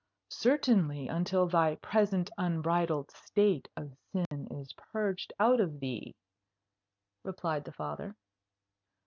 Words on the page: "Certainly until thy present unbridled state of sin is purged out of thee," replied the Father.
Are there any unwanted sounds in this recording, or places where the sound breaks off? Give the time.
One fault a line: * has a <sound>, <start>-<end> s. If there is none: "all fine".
* has a dropout, 4.3-4.3 s